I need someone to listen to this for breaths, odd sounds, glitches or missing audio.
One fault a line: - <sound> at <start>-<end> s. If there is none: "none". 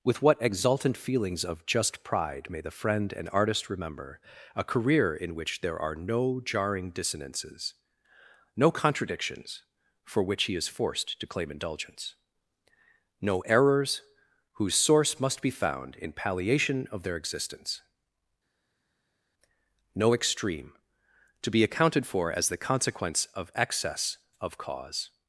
none